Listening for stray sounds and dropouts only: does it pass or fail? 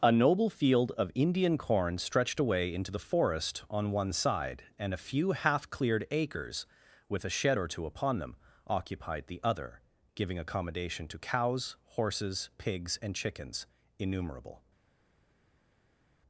pass